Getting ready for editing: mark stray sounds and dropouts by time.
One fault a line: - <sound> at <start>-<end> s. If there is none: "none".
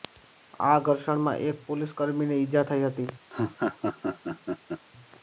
- laugh at 3.3-4.8 s